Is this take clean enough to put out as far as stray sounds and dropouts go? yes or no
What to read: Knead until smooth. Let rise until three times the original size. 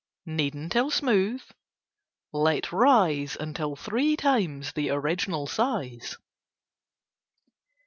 yes